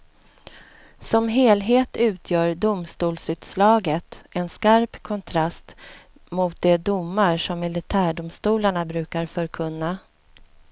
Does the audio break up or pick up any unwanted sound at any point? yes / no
no